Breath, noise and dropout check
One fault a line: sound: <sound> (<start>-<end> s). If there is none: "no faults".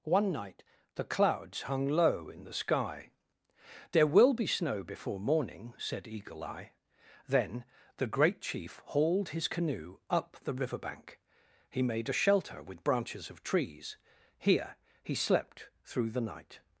no faults